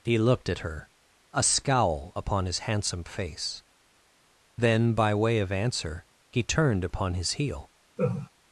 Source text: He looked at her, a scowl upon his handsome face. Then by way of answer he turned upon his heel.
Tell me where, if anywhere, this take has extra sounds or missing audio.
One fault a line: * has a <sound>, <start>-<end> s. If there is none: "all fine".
* has a laugh, 8.0-8.3 s